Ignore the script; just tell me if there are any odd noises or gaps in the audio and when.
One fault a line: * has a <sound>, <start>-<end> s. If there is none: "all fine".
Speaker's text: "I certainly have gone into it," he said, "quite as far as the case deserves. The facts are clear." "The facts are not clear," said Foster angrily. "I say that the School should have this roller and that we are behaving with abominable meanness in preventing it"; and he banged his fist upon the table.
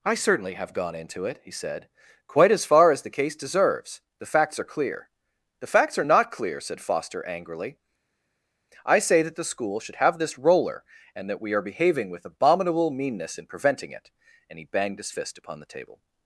all fine